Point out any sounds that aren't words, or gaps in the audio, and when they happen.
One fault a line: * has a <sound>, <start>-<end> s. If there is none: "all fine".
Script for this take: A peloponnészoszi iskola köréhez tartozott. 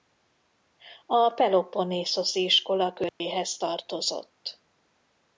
* has a dropout, 3.1-3.2 s